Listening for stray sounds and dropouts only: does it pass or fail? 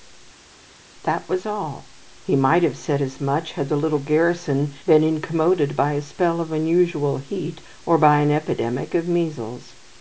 pass